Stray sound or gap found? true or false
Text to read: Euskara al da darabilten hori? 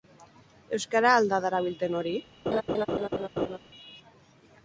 true